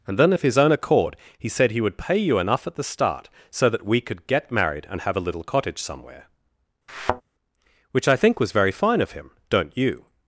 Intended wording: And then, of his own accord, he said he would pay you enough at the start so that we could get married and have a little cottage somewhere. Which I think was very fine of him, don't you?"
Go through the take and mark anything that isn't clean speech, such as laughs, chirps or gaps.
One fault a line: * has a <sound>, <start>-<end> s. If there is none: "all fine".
* has a thud, 6.9-7.2 s